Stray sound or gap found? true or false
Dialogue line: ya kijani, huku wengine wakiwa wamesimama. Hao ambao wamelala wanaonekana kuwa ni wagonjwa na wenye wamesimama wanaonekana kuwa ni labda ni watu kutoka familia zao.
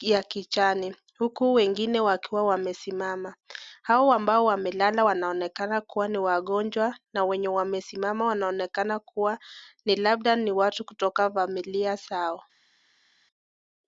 false